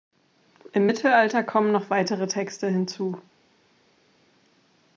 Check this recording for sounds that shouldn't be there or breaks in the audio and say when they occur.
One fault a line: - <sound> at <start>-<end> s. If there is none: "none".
none